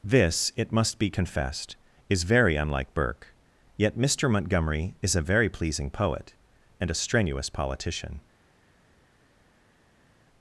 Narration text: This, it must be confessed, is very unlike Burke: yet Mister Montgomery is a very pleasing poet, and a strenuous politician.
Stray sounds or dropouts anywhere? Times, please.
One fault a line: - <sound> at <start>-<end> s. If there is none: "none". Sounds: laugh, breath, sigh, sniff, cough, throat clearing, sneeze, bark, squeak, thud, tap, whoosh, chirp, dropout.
none